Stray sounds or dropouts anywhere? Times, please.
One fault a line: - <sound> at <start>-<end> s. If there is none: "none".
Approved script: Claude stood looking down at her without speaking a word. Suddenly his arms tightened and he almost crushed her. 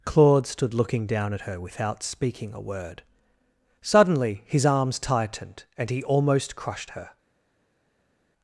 none